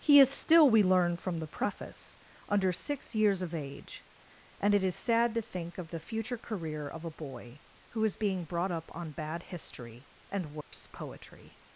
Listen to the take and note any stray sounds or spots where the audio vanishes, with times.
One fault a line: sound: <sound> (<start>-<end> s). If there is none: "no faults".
sound: dropout (10.6-10.7 s)